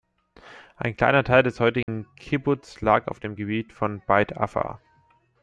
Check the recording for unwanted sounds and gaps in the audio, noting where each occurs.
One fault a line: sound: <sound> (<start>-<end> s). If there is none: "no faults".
sound: dropout (1.8-1.9 s)